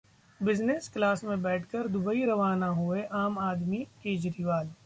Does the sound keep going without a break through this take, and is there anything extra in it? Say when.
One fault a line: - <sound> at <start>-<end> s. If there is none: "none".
none